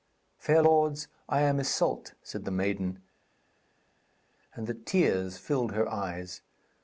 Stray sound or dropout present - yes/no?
no